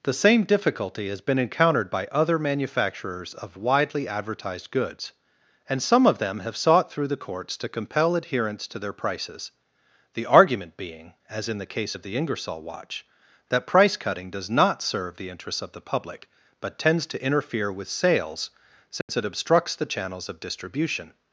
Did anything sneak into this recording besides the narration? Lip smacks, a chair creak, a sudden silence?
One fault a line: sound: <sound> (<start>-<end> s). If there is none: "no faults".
sound: dropout (19.0-19.1 s)